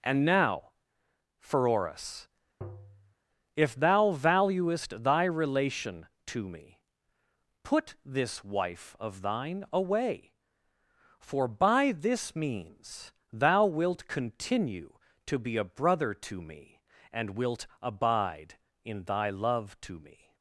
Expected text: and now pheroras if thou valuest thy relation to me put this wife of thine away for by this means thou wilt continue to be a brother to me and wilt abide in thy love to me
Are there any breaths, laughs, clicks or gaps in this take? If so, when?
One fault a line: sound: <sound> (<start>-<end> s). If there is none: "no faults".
sound: tap (2.6-3.1 s)